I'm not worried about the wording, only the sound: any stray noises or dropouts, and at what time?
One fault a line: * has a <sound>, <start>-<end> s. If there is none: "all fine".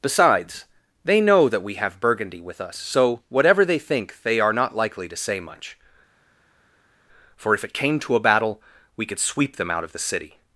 all fine